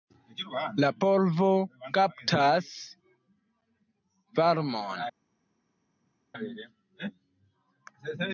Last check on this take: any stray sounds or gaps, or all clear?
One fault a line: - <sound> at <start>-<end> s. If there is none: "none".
none